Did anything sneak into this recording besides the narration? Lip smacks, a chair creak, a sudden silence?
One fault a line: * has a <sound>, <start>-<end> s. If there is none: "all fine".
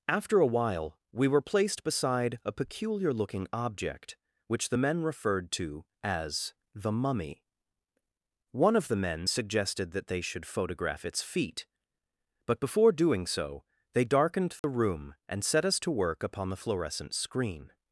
* has a dropout, 14.6-14.6 s